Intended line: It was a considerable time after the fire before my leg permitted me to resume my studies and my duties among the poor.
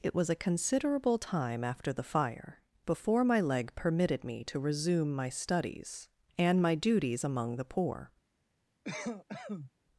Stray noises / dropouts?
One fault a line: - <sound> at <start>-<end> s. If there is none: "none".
- cough at 8.8-9.7 s